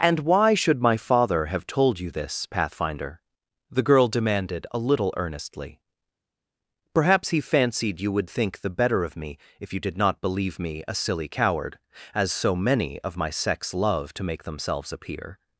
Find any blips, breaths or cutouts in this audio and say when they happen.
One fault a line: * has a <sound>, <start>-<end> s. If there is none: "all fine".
all fine